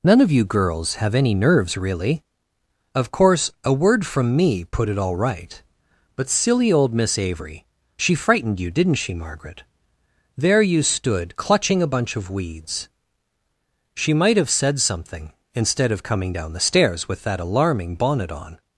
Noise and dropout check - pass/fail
pass